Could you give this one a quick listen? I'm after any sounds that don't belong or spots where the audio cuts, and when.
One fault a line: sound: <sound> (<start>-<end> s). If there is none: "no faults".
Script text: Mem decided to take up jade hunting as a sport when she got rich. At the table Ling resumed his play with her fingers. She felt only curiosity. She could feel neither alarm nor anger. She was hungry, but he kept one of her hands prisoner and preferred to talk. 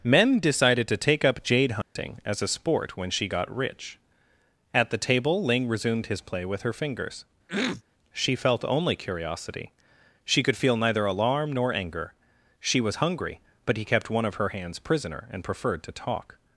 sound: dropout (1.8-2.0 s)
sound: throat clearing (7.5-7.8 s)